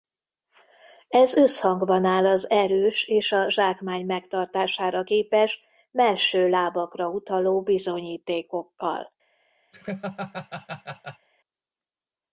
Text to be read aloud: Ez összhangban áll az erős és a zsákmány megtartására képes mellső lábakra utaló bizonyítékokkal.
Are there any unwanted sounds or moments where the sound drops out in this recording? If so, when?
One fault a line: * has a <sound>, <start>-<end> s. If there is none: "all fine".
* has a laugh, 9.7-11.3 s